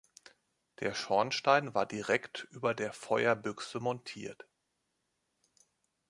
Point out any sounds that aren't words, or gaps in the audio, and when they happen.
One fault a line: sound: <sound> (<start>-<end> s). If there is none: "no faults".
no faults